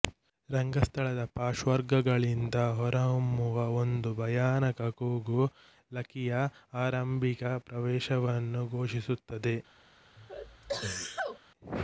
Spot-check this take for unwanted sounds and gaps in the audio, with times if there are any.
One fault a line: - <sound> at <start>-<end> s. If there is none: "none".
- sneeze at 10.2-11.4 s